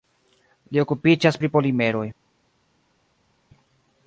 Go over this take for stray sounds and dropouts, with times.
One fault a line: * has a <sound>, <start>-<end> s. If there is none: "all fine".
all fine